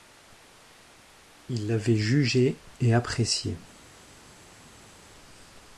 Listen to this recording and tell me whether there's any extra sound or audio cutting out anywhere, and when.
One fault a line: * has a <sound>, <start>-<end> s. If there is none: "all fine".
all fine